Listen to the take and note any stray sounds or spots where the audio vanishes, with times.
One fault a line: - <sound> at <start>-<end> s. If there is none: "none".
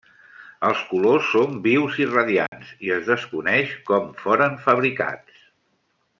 - dropout at 2.5-2.5 s